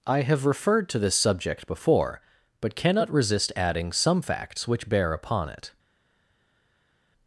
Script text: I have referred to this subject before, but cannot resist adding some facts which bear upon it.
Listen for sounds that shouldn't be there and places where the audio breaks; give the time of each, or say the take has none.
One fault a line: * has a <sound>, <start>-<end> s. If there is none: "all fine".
all fine